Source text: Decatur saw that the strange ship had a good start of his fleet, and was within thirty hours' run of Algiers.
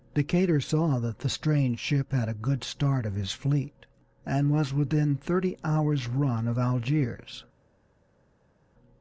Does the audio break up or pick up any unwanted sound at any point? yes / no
no